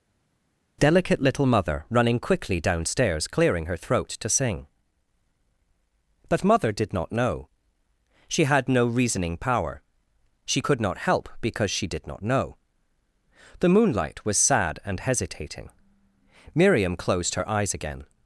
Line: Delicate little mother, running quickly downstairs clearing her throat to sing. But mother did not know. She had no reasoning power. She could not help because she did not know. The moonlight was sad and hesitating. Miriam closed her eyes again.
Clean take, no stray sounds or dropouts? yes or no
yes